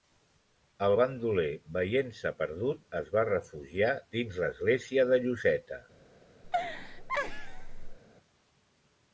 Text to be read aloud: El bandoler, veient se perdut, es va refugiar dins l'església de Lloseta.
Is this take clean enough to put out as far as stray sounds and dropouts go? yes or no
no